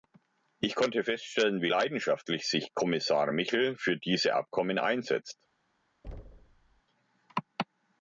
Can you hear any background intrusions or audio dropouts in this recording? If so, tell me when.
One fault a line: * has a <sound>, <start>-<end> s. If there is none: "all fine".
* has a thud, 6.0-6.8 s